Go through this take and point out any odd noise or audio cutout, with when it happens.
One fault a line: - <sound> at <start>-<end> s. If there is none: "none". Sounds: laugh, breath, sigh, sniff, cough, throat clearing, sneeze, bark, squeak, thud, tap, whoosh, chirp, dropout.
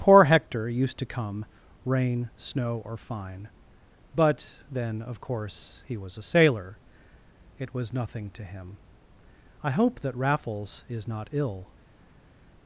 none